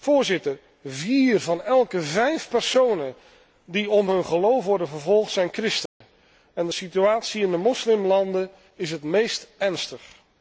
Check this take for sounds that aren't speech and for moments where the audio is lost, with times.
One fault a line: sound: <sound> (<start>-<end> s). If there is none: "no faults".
sound: dropout (5.9-6.0 s)